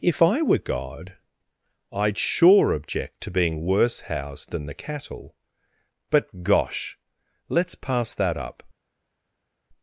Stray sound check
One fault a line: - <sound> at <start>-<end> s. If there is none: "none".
none